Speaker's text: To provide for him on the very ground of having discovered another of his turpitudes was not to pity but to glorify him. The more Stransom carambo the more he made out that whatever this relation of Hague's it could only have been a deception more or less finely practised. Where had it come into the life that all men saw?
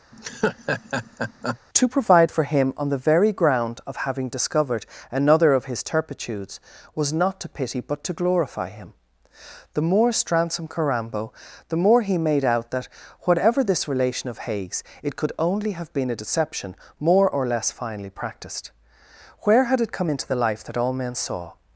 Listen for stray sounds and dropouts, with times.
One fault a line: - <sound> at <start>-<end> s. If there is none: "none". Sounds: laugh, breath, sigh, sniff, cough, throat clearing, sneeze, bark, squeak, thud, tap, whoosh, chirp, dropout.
- laugh at 0.1-1.6 s